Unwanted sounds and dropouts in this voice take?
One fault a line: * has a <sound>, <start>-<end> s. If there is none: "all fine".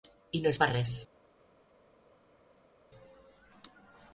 all fine